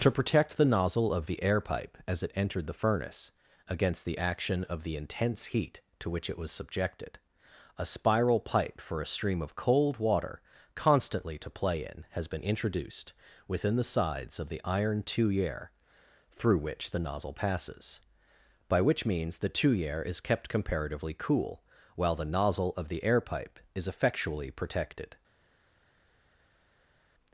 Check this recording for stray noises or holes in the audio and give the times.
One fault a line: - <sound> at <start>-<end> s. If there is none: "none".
none